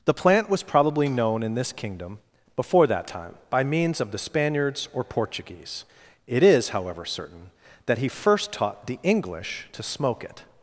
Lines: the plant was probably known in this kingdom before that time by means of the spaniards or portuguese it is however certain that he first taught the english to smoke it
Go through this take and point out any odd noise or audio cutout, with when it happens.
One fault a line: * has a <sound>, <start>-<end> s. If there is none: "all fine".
all fine